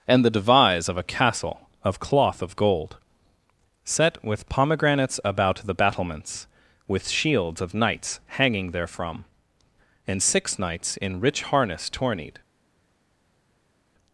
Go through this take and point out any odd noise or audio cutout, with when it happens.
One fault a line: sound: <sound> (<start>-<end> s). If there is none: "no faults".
no faults